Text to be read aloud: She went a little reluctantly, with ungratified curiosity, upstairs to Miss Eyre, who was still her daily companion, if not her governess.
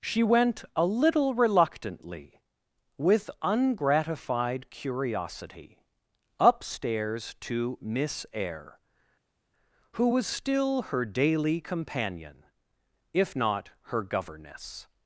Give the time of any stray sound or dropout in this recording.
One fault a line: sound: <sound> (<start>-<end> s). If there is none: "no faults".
no faults